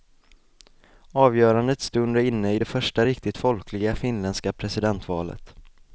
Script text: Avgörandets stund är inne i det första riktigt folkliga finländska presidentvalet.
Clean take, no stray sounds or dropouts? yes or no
yes